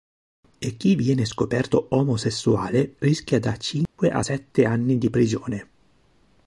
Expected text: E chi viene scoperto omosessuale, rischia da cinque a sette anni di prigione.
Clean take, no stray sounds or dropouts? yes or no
no